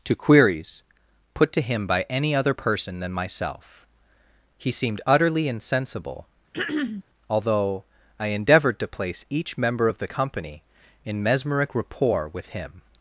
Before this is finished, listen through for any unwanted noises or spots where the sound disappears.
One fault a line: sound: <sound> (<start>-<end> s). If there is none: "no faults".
sound: throat clearing (6.5-7.0 s)